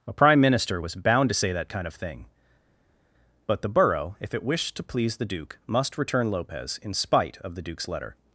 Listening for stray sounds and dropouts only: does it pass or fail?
pass